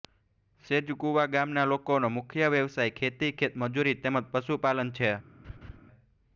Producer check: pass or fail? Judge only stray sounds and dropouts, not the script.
fail